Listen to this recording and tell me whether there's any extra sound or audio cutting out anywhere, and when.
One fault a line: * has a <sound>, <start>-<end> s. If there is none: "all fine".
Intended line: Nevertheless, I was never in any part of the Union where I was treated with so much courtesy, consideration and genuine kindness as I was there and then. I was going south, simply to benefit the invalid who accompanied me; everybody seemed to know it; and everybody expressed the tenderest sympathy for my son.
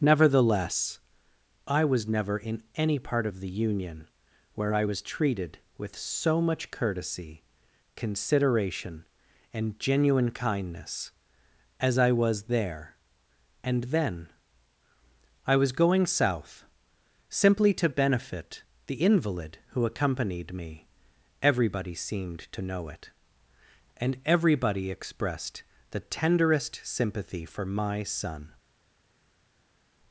all fine